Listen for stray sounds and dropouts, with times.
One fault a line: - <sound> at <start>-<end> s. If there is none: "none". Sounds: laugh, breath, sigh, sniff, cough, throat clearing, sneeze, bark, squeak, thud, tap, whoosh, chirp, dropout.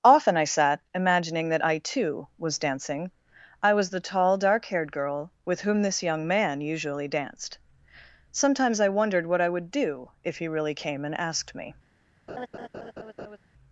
- laugh at 12.3-13.4 s